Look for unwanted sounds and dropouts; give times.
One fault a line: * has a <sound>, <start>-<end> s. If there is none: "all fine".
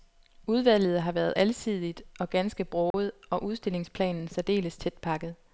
* has a dropout, 2.9-2.9 s